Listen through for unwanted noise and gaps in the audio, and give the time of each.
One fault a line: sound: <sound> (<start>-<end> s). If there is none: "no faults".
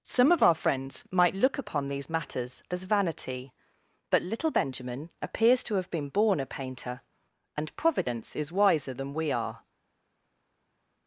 no faults